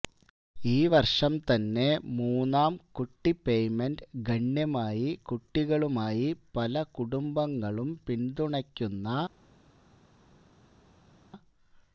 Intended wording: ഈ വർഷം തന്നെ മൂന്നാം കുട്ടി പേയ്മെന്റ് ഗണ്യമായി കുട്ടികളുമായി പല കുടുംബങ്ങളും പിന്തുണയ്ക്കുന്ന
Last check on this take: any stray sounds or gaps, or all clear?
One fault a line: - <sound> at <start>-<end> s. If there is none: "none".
none